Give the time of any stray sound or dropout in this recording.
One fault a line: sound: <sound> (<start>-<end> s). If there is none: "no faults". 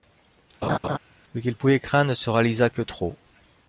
sound: laugh (0.6-1.0 s)